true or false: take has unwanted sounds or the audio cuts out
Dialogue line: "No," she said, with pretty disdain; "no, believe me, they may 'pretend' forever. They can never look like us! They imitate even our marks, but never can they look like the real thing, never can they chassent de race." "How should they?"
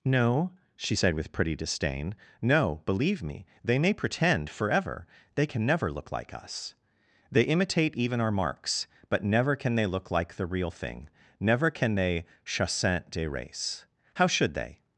false